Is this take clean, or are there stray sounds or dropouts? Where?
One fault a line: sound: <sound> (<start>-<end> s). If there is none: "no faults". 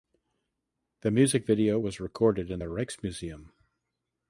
no faults